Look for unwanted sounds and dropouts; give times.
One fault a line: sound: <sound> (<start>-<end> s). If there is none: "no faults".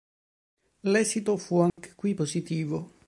sound: dropout (1.7-1.8 s)